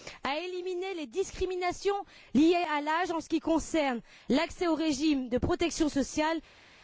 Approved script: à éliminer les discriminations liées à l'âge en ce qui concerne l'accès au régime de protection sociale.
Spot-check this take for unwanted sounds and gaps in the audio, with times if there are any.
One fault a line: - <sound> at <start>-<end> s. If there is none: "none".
none